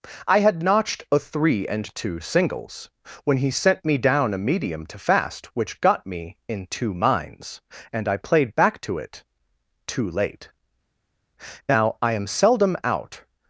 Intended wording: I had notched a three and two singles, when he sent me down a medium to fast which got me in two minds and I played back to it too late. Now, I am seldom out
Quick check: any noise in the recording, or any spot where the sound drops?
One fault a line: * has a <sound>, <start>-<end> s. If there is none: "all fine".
all fine